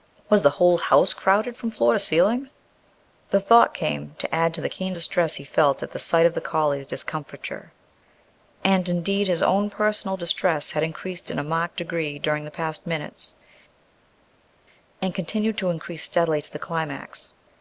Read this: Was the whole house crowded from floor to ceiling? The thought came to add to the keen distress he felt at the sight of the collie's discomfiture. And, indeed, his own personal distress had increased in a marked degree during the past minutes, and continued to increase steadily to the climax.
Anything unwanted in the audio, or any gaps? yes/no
no